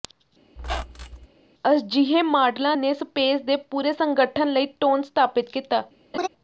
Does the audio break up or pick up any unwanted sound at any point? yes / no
yes